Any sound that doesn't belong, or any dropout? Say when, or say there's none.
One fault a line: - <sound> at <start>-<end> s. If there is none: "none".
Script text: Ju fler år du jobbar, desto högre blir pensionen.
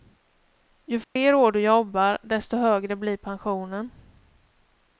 - dropout at 1.0-1.2 s